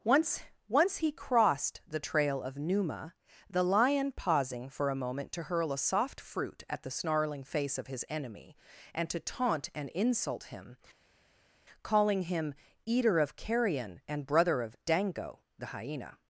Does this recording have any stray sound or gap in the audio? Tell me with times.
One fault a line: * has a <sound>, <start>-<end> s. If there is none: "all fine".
all fine